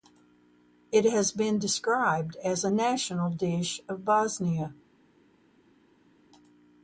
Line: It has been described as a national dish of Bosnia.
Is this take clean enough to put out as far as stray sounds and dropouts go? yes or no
yes